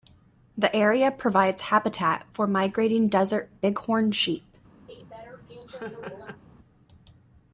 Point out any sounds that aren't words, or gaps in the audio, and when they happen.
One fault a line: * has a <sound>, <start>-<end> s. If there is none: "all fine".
* has a laugh, 4.9-6.4 s